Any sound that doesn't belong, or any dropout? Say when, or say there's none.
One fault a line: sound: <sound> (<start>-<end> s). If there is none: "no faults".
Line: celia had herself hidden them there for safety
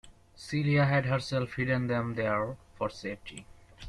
no faults